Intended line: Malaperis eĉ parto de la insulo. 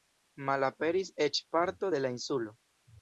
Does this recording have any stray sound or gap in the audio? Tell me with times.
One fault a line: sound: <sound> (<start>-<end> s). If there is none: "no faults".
no faults